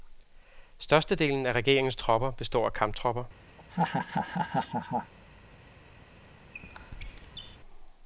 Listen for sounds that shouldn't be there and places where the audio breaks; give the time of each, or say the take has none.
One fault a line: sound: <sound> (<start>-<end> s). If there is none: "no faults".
sound: laugh (3.6-5.1 s)
sound: squeak (6.5-7.6 s)